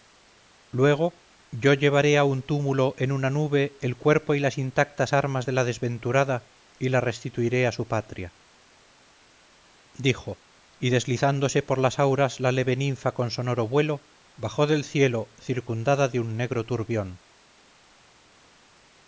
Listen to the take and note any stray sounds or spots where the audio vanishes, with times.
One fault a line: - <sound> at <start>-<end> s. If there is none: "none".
none